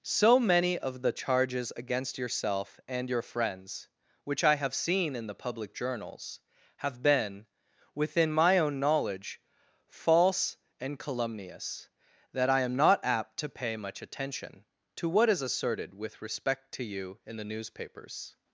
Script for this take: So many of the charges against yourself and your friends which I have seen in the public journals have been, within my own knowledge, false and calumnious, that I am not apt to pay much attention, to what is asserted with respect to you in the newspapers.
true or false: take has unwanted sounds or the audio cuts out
false